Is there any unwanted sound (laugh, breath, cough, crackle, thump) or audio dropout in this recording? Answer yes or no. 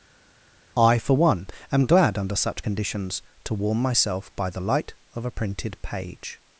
no